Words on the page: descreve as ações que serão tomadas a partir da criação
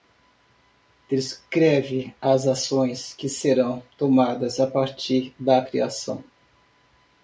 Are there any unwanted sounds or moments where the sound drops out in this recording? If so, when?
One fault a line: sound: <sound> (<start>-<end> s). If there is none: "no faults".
no faults